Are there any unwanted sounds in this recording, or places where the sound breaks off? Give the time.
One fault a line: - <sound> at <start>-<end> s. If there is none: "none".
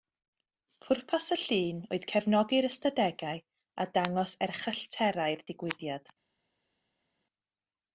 none